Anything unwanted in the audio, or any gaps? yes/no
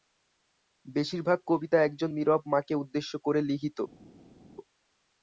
no